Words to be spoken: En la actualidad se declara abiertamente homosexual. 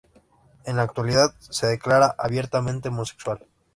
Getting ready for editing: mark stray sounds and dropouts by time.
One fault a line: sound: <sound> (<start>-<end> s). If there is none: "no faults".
no faults